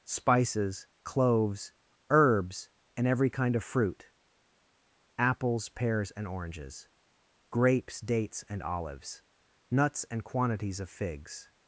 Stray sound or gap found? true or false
false